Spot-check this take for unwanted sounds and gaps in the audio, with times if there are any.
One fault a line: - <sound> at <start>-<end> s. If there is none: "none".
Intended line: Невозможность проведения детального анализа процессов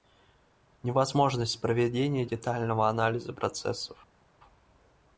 none